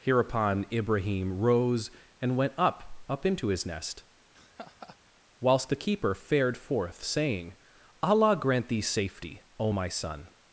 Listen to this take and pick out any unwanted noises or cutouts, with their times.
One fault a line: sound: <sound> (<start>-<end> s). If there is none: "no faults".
sound: laugh (4.3-5.0 s)